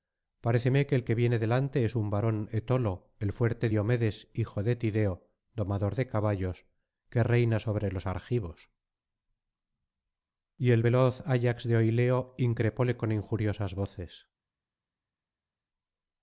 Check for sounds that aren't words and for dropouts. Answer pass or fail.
pass